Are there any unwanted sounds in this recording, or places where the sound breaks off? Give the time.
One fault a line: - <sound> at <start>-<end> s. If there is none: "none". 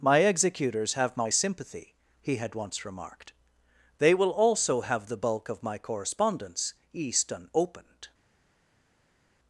none